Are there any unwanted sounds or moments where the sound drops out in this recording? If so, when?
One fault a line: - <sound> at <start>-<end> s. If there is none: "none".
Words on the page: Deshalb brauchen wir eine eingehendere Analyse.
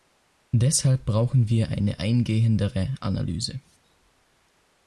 none